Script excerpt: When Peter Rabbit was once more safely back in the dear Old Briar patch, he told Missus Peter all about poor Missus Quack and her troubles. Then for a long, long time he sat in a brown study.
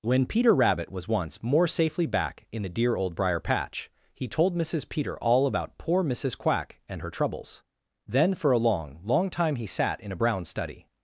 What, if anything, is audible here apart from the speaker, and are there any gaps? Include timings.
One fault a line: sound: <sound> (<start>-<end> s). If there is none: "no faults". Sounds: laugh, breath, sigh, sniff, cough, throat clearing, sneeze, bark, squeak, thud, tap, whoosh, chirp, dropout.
no faults